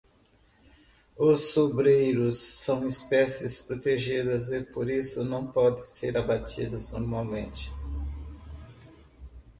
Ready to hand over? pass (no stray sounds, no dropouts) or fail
pass